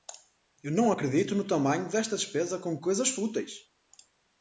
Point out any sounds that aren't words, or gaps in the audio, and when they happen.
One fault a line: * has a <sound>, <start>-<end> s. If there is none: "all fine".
all fine